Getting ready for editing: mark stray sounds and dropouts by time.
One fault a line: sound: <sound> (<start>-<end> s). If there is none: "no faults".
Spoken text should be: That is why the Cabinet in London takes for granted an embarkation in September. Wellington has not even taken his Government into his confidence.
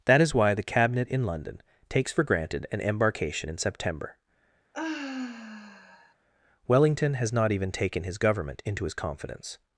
sound: sigh (4.7-6.1 s)